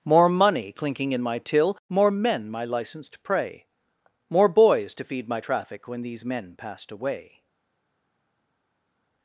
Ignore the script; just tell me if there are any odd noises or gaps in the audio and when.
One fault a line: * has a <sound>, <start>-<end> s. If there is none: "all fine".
all fine